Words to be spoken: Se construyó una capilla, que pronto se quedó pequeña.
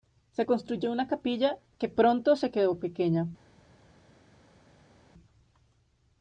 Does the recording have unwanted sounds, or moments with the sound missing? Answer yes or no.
no